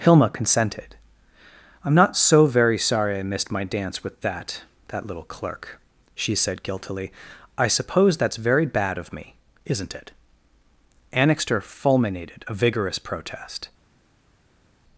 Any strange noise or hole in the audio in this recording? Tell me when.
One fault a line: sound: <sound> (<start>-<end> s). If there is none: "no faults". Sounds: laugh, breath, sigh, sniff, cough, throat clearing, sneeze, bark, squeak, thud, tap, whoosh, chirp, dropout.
no faults